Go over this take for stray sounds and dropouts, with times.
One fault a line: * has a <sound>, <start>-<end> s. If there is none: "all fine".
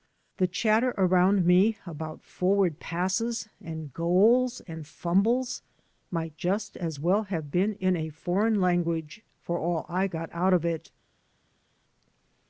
all fine